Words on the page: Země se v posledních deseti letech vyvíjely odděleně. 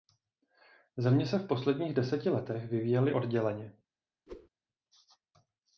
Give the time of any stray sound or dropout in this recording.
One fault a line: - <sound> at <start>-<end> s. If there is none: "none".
- whoosh at 4.3-4.5 s